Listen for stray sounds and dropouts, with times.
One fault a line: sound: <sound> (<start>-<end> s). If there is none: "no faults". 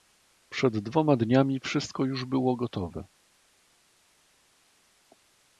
no faults